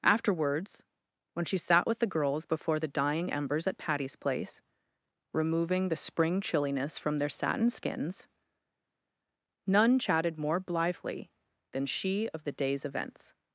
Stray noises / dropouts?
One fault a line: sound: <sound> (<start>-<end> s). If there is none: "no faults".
no faults